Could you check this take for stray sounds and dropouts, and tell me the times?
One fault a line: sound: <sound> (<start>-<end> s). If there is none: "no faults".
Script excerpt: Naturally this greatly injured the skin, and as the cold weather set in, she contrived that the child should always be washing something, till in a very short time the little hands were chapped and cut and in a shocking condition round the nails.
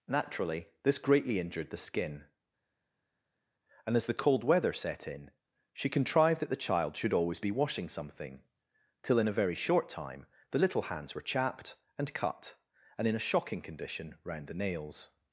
no faults